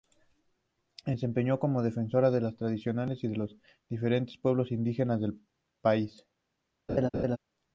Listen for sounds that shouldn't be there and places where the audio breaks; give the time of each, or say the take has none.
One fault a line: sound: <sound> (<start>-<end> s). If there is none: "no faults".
sound: laugh (6.9-7.4 s)